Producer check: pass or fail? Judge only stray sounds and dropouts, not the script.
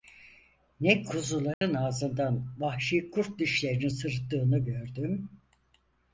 fail